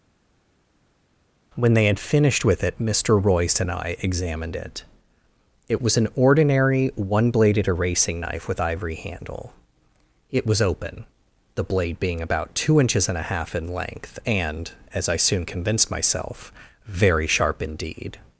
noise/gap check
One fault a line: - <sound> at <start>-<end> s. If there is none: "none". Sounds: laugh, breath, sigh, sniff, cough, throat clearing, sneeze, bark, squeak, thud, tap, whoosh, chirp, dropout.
none